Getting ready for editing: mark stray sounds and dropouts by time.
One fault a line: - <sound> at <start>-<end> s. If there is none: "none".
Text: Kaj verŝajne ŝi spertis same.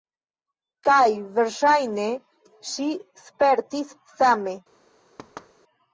- thud at 5.2-5.5 s